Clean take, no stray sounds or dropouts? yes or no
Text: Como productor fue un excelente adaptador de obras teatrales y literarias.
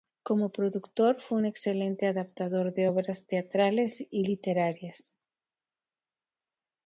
yes